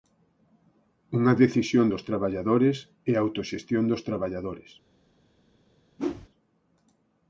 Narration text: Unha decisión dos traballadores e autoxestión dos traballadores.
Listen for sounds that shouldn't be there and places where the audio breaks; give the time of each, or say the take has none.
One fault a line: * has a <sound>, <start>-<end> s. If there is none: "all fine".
* has a whoosh, 6.0-6.3 s